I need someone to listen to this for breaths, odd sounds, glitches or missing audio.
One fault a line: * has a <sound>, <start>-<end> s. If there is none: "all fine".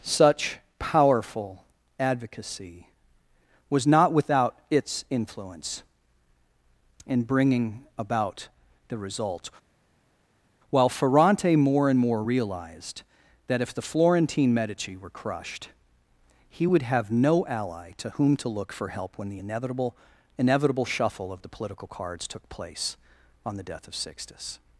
all fine